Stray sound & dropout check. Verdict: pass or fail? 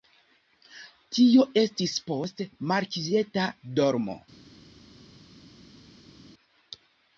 pass